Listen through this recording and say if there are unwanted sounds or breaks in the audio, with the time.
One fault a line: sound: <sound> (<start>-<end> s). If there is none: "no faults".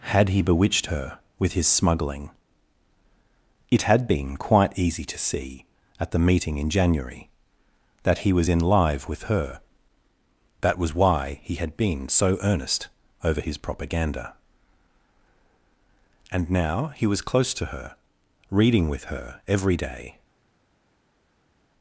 no faults